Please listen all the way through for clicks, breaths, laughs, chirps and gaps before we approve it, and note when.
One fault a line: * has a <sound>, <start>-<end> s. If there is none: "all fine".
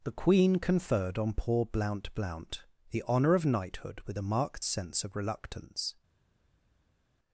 all fine